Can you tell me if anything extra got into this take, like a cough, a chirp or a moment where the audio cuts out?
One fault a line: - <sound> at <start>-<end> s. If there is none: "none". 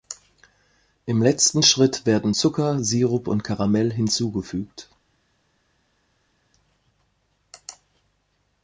none